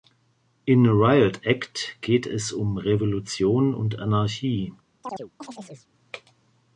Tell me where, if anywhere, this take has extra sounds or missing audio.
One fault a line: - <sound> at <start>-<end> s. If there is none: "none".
- chirp at 5.0-5.9 s